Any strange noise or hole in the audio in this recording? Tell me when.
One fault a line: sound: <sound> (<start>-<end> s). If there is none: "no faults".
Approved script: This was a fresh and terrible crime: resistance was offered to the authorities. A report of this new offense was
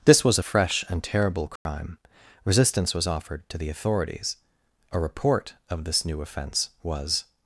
sound: dropout (1.6-1.7 s)